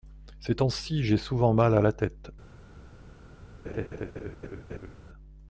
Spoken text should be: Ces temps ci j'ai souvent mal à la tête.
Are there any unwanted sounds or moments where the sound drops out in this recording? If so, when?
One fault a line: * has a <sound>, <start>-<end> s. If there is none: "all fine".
* has a laugh, 3.6-5.0 s